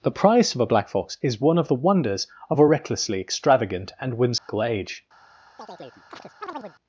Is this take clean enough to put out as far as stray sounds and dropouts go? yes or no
no